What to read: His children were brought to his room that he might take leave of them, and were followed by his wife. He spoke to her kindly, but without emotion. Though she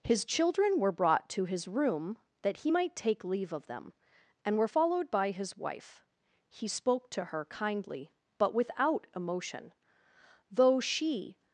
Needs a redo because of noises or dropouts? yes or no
no